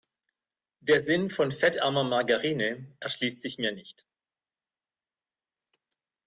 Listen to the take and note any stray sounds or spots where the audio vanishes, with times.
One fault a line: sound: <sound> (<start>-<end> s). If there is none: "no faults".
no faults